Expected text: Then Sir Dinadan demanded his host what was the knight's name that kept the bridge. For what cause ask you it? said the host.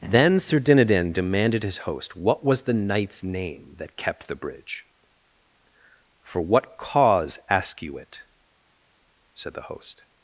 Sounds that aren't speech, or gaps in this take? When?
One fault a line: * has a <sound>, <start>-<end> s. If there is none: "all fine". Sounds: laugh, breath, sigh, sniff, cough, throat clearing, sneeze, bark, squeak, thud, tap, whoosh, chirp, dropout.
all fine